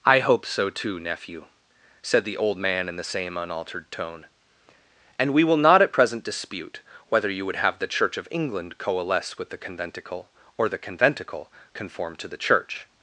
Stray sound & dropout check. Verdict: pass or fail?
pass